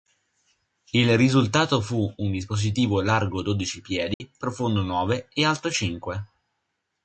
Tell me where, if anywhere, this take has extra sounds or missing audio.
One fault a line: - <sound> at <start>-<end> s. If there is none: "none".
- dropout at 4.1-4.2 s